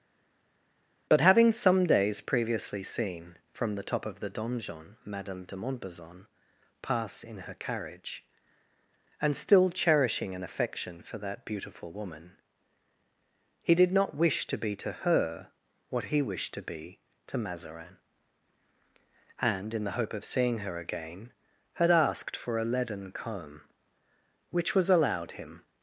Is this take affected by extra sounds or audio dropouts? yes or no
no